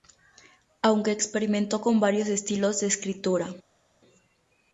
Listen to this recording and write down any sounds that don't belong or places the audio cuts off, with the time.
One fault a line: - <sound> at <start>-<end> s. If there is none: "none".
none